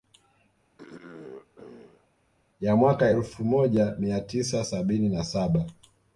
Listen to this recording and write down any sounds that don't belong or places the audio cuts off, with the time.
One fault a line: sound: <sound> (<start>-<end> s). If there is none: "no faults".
sound: throat clearing (0.8-2.1 s)